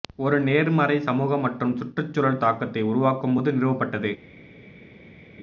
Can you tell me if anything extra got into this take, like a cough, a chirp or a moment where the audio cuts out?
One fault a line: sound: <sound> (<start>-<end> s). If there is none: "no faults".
no faults